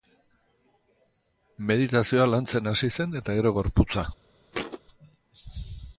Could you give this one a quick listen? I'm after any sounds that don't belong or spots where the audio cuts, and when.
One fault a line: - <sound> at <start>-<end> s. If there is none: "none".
- thud at 4.5-4.8 s